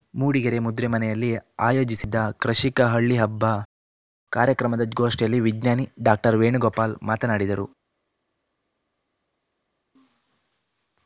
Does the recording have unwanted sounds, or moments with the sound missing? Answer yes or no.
no